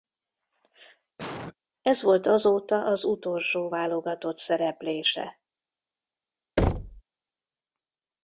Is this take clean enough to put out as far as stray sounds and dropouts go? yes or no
no